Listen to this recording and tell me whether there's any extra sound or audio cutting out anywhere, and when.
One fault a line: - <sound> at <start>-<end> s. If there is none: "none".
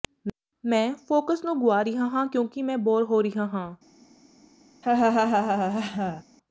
- laugh at 4.8-6.2 s